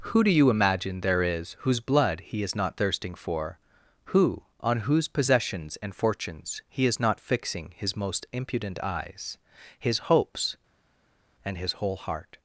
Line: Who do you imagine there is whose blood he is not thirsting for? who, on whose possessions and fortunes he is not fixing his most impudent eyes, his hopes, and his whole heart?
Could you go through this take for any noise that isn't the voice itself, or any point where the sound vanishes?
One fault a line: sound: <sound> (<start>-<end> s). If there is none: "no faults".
no faults